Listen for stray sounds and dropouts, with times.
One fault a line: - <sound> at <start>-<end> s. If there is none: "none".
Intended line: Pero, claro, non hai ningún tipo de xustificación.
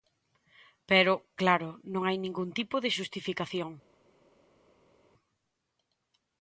none